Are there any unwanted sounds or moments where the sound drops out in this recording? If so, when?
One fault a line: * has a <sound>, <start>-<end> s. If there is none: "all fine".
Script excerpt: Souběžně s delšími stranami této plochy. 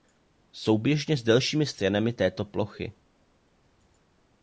all fine